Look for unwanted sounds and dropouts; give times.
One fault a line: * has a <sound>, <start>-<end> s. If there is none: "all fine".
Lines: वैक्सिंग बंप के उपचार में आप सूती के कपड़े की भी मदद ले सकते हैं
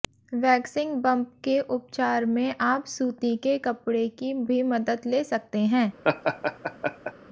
* has a laugh, 6.0-7.1 s